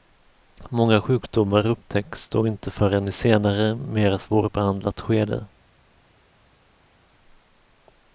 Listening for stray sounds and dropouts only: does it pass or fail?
pass